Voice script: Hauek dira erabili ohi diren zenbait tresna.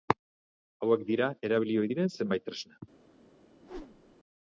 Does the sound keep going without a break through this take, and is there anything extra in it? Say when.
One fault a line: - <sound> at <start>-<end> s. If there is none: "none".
- whoosh at 3.6-4.2 s